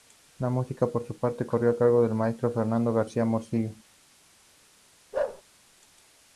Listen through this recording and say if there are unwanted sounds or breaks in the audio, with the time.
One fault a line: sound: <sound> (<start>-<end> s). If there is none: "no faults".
sound: bark (5.1-5.4 s)